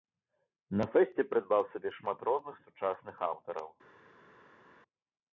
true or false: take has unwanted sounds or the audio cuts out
false